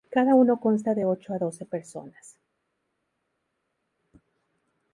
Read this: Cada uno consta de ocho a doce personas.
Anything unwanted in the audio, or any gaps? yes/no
no